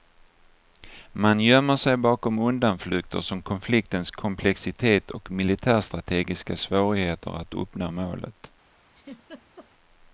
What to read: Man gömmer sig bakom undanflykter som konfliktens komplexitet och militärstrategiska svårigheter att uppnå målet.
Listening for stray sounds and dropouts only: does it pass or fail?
fail